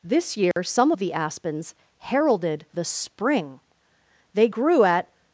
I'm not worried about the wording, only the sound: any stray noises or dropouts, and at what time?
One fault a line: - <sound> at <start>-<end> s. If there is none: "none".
- dropout at 0.5-0.6 s